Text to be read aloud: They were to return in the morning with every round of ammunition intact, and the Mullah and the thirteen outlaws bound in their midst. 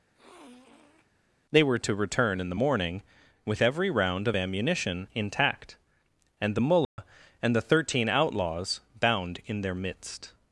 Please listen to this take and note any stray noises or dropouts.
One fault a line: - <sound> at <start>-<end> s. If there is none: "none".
- sniff at 0.1-1.1 s
- dropout at 6.8-7.0 s